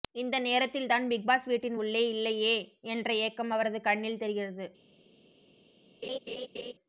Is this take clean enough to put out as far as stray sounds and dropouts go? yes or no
no